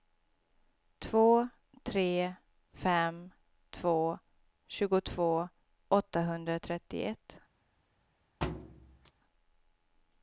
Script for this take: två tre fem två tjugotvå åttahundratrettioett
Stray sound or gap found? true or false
true